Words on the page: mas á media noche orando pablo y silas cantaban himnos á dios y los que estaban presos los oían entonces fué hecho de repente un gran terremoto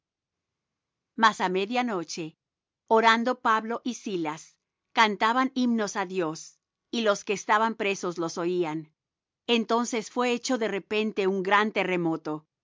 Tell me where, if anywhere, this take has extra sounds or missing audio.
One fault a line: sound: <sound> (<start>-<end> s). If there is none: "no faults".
no faults